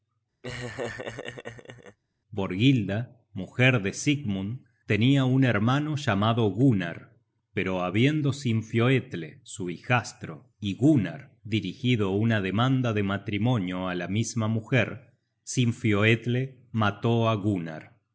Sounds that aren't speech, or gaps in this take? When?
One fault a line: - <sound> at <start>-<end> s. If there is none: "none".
- laugh at 0.4-2.0 s